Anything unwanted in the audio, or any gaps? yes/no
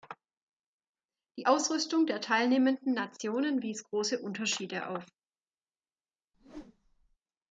yes